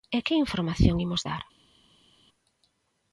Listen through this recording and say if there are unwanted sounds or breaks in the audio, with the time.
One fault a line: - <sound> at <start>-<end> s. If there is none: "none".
none